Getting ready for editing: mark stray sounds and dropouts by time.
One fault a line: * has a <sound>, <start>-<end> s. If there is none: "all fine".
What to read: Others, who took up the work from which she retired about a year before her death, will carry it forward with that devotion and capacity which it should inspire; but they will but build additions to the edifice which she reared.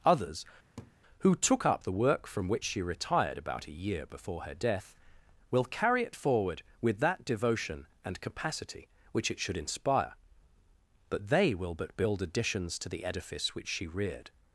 * has a laugh, 0.8-0.9 s